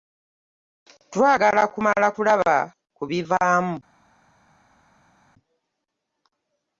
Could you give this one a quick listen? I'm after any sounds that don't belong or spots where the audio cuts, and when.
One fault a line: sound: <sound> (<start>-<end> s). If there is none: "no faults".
no faults